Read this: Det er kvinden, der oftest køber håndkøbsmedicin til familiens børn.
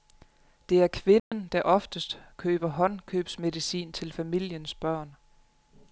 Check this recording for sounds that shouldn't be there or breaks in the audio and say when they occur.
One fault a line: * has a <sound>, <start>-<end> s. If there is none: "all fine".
* has a dropout, 1.2-1.3 s